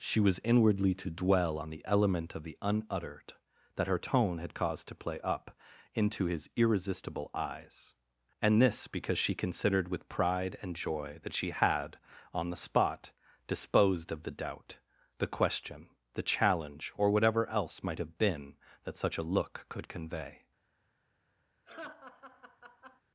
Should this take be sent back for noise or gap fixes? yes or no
yes